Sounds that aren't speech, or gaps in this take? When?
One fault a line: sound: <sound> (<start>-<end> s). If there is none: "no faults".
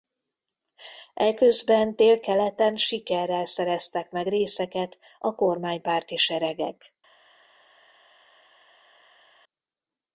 no faults